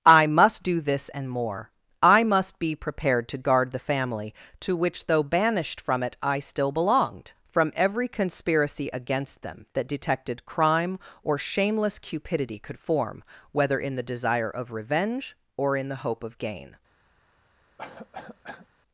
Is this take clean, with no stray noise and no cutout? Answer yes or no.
no